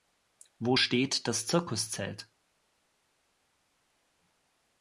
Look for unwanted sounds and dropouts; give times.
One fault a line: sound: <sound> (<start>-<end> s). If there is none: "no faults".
no faults